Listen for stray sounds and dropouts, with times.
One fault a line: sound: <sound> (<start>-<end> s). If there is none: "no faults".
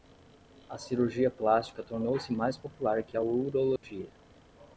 sound: dropout (3.8-3.8 s)